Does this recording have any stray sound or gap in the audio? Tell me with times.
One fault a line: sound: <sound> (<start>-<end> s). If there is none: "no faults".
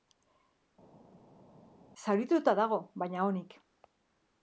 no faults